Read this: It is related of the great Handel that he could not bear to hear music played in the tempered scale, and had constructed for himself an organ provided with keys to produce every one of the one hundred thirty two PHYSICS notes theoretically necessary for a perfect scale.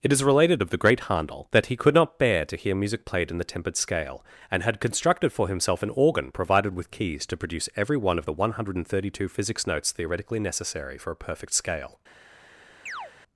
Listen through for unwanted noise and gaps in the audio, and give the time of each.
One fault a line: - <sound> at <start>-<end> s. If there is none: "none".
- chirp at 12.9-13.1 s